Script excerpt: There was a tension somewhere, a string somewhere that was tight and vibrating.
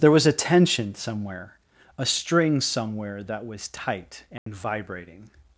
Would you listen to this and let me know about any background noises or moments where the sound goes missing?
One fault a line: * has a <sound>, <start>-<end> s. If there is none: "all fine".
* has a dropout, 4.4-4.5 s